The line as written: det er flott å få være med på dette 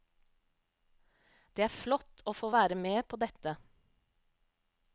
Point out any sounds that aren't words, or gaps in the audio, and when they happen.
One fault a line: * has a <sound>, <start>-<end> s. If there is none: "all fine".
all fine